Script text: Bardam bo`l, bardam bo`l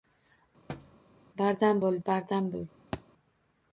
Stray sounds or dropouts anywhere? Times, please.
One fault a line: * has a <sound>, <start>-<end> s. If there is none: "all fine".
* has a thud, 0.7-1.0 s
* has a thud, 2.9-3.0 s